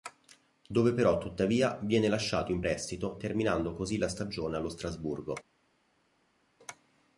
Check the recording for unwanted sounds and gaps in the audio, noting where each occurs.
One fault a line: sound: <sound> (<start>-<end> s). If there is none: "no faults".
no faults